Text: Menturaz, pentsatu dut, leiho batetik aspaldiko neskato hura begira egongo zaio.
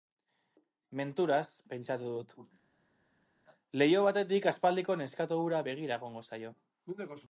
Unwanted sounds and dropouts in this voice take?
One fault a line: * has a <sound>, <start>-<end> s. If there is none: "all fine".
all fine